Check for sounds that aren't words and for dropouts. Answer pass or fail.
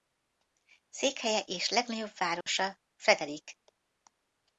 fail